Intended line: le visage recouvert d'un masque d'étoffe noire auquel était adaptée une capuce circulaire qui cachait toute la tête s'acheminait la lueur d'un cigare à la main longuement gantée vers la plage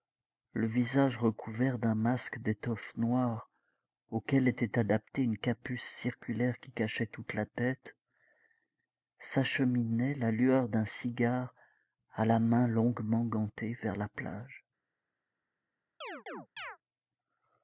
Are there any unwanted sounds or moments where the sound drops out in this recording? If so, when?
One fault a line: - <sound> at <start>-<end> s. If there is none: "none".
- chirp at 16.0-16.8 s